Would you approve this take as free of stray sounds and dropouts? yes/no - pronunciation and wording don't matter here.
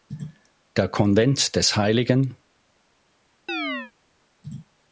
no